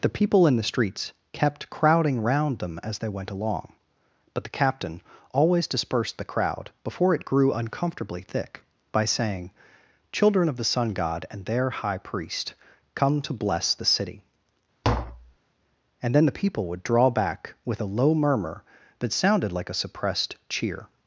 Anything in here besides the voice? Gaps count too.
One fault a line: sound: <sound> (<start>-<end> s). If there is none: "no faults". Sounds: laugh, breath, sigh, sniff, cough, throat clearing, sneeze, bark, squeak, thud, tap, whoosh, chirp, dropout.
sound: tap (14.8-15.4 s)